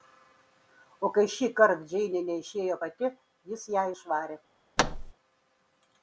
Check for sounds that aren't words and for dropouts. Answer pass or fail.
fail